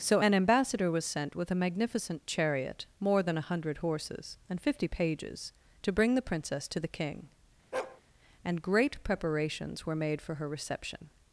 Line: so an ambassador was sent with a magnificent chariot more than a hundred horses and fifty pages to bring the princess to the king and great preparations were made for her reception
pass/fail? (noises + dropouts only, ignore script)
fail